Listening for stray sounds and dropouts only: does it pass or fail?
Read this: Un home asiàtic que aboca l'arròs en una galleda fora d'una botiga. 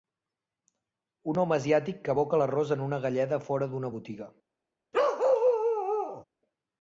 fail